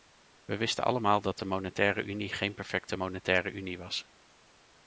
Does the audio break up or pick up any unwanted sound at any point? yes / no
no